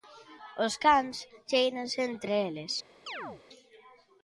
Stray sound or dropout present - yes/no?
yes